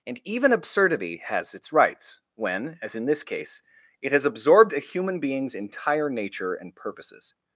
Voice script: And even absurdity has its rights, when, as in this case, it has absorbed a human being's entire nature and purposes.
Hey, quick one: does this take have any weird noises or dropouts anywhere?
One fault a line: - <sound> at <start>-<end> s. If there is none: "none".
none